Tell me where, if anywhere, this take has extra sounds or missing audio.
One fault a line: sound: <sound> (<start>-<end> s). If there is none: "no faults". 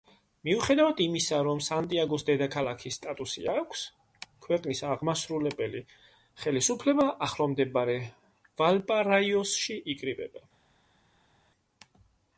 no faults